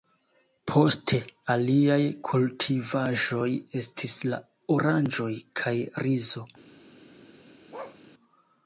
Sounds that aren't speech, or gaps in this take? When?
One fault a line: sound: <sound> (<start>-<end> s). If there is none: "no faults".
sound: bark (7.7-8.0 s)